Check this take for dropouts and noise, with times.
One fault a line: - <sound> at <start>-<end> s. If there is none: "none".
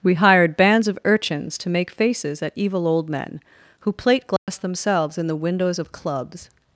- dropout at 4.4-4.5 s